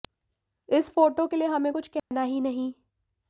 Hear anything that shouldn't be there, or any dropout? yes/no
yes